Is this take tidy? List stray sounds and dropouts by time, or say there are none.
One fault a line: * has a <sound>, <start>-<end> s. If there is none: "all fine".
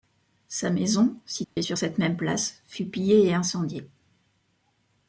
* has a dropout, 1.4-1.6 s